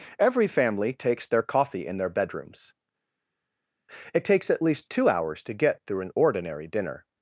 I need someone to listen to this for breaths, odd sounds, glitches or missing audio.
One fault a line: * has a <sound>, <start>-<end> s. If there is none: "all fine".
all fine